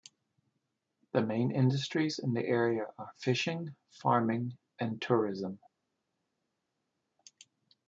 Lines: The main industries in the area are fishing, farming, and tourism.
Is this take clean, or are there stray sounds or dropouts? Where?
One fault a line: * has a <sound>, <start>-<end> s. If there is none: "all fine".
all fine